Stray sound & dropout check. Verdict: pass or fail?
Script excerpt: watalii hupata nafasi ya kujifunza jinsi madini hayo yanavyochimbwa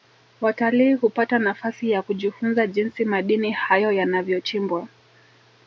pass